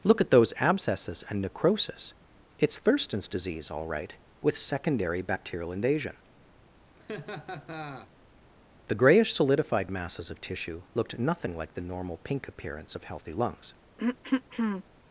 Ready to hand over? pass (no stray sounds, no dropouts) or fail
fail